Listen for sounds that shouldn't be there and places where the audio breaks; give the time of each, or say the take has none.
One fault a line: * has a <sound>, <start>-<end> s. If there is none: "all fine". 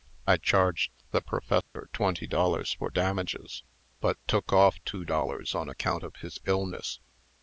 * has a dropout, 1.6-1.8 s